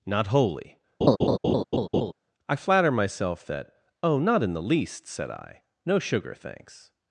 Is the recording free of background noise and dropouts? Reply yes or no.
no